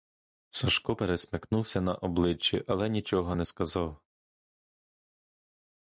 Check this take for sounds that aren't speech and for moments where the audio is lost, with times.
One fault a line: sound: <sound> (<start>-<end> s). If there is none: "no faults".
no faults